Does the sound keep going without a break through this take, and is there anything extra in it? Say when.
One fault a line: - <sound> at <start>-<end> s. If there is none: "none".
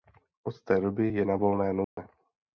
- dropout at 1.8-2.0 s